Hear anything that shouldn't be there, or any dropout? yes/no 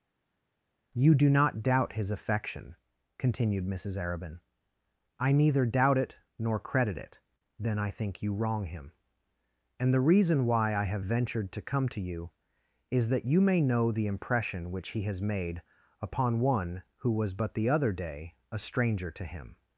no